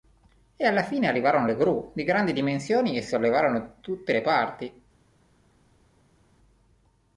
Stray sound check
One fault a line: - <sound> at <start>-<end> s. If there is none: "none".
none